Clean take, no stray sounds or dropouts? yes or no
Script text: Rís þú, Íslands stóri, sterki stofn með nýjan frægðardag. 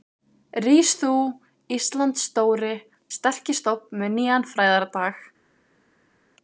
yes